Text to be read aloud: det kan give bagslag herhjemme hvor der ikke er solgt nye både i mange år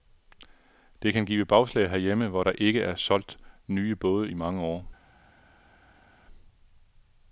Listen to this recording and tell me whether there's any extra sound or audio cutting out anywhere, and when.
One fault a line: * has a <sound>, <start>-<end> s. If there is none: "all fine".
all fine